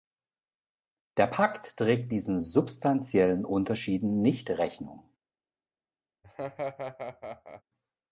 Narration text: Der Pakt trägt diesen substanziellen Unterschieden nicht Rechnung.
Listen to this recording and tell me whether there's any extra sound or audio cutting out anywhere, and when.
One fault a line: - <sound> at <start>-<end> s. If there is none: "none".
- laugh at 6.2-7.6 s